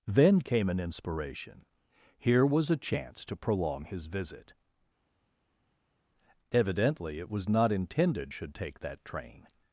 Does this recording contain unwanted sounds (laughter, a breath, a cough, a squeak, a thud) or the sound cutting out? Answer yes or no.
no